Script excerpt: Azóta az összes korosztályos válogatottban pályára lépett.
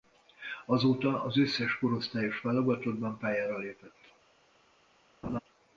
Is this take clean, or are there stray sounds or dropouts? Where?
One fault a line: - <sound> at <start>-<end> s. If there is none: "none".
- laugh at 5.2-5.4 s